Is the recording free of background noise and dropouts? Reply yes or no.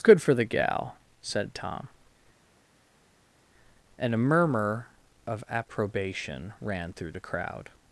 yes